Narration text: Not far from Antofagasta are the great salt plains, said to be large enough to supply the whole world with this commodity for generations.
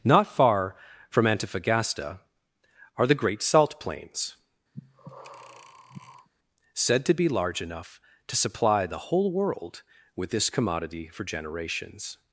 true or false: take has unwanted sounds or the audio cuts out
true